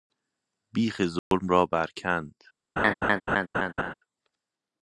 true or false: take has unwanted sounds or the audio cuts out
true